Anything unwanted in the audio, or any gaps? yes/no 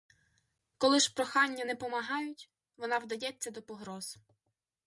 no